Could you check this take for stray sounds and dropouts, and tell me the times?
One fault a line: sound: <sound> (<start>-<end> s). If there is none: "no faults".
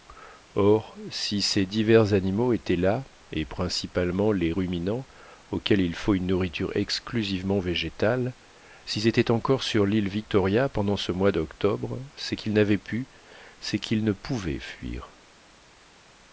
no faults